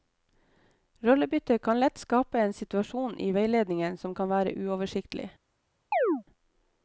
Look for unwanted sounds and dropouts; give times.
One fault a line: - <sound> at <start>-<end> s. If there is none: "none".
- chirp at 5.9-6.2 s